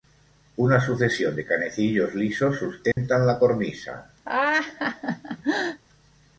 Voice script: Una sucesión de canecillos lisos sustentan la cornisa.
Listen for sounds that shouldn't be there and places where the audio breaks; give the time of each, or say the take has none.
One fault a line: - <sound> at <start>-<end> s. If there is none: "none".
- dropout at 2.9-3.0 s
- laugh at 4.3-5.8 s